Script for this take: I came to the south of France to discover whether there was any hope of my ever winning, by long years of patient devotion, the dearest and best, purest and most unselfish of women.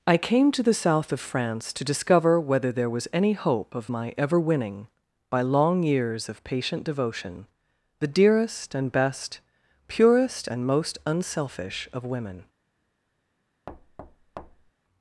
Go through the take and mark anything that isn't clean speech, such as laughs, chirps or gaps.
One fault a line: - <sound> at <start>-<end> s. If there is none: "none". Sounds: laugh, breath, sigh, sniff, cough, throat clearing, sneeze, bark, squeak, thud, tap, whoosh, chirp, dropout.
- thud at 13.7-14.7 s